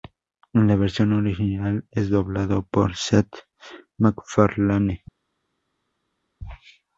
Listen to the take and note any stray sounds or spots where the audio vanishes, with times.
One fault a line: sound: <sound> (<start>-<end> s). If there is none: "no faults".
no faults